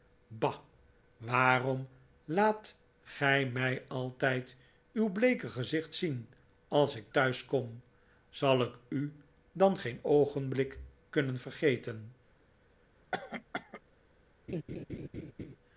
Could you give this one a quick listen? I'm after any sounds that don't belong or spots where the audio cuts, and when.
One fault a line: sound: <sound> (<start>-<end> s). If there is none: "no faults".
sound: cough (13.1-13.8 s)
sound: laugh (14.5-15.6 s)